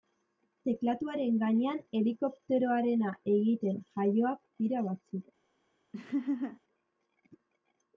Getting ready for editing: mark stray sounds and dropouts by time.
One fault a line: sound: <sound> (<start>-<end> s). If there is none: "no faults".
sound: laugh (5.9-6.6 s)